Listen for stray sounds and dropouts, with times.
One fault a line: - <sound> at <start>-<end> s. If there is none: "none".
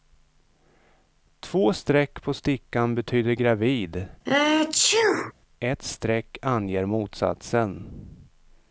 - sneeze at 4.3-5.3 s